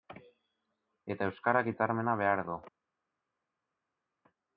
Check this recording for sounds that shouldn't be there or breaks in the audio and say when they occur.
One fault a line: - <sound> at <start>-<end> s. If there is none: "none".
none